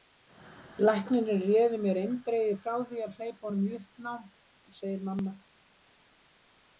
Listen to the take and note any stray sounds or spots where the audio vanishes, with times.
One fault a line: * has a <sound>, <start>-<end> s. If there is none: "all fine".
all fine